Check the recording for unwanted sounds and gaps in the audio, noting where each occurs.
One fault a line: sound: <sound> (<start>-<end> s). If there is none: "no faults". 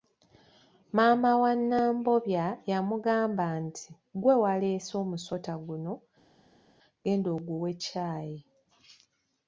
no faults